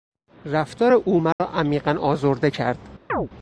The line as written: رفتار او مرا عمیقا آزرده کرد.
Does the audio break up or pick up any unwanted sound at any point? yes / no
yes